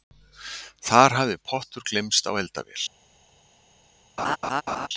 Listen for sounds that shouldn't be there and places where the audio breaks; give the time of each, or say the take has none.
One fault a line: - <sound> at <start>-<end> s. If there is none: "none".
- laugh at 4.2-4.9 s